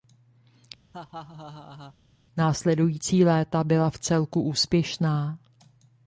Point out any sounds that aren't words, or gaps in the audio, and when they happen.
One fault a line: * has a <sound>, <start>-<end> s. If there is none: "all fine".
* has a laugh, 0.9-2.0 s